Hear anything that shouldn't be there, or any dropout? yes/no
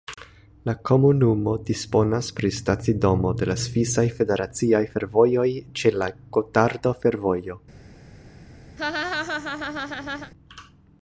yes